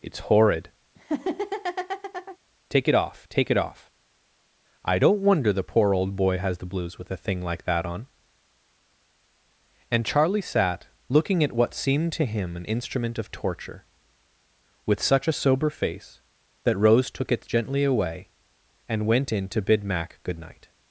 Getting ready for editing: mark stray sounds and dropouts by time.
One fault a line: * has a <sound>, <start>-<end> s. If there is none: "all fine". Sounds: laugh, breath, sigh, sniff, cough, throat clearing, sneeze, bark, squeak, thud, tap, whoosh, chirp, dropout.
* has a laugh, 1.0-2.4 s